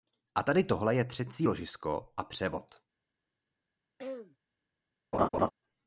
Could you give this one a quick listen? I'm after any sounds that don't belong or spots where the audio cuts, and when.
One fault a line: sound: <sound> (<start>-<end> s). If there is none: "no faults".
sound: throat clearing (4.0-4.4 s)
sound: laugh (5.1-5.5 s)